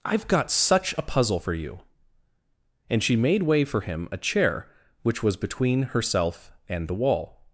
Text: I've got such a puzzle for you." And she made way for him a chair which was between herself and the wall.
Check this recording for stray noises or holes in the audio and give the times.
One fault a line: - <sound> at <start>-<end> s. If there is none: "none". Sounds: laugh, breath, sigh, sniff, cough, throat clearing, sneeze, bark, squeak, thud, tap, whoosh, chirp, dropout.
none